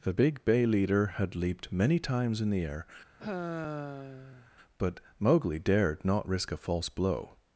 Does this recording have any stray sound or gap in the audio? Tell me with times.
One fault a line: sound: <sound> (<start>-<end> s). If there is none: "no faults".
sound: sigh (3.2-4.5 s)